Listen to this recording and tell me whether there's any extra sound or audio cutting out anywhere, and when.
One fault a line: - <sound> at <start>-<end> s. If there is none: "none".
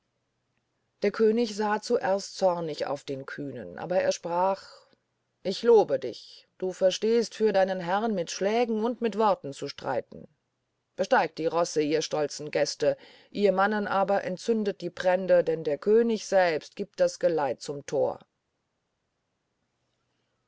none